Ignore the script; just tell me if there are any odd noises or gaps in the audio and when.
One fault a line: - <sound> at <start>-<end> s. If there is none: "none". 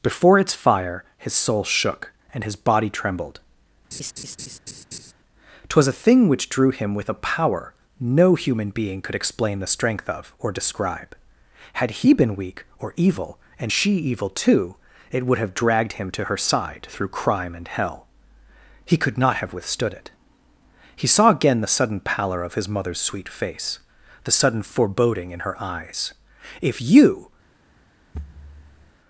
- laugh at 3.9-5.1 s
- thud at 28.1-28.9 s